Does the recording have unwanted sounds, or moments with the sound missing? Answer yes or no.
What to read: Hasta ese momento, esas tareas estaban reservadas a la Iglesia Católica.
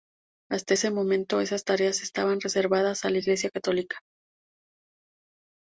no